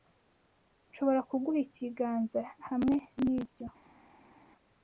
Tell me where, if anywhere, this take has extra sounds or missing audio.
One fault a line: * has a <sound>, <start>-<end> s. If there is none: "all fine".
all fine